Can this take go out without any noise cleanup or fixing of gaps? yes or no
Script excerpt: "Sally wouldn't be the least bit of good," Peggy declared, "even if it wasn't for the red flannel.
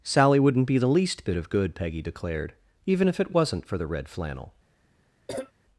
no